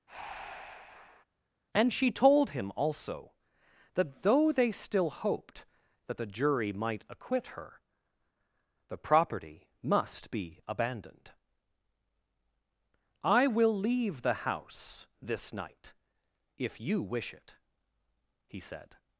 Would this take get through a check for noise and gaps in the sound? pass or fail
fail